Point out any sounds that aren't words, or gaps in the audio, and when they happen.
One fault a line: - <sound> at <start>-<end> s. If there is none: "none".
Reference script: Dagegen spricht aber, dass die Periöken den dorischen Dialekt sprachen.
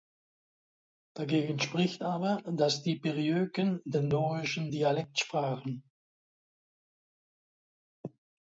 none